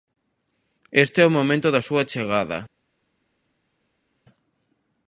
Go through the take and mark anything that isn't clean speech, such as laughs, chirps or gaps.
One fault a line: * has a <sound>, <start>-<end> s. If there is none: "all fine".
all fine